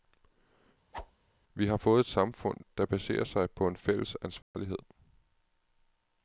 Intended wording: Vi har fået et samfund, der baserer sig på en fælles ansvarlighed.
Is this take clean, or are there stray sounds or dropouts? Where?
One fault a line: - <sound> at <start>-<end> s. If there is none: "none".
- whoosh at 0.9-1.1 s
- dropout at 4.4-4.5 s